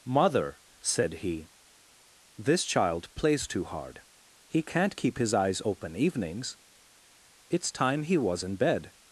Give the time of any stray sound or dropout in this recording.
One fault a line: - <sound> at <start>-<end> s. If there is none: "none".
none